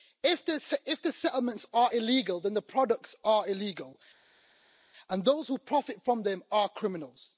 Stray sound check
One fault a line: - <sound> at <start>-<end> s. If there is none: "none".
none